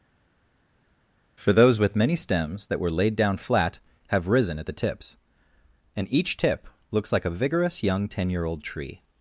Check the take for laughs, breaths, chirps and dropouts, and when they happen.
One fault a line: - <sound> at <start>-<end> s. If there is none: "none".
none